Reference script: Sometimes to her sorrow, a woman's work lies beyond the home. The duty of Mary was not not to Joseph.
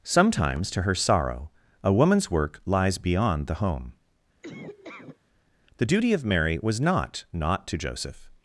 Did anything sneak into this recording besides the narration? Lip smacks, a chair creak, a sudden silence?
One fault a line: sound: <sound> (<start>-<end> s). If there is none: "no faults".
sound: laugh (4.4-5.2 s)